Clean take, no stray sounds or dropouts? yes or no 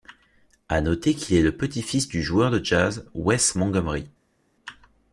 yes